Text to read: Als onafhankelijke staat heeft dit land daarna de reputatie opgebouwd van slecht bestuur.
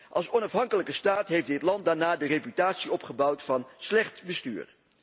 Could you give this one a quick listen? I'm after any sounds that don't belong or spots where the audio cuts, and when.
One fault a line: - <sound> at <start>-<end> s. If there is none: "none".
none